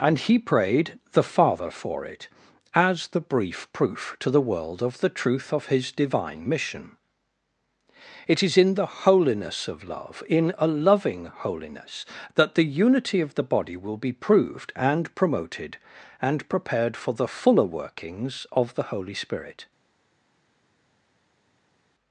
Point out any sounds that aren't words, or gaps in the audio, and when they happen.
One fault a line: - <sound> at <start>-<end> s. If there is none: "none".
none